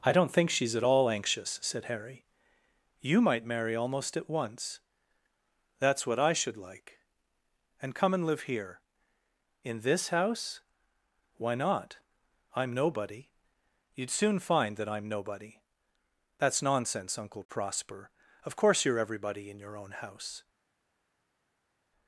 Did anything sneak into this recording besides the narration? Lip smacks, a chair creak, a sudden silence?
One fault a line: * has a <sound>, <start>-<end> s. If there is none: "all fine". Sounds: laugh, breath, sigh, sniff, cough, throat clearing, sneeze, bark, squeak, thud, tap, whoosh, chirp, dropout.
all fine